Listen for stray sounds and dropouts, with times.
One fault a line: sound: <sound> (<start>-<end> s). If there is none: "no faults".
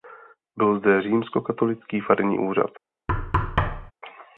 sound: thud (3.1-3.9 s)